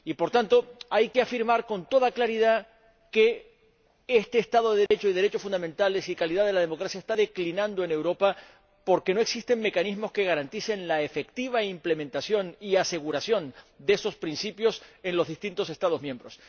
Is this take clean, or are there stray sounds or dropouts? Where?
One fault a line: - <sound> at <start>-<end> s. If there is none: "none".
- dropout at 4.9-4.9 s